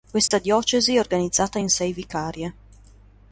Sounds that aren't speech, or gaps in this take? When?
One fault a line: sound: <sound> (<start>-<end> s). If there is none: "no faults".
sound: dropout (0.3-0.3 s)